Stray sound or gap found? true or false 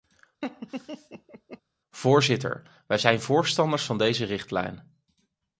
true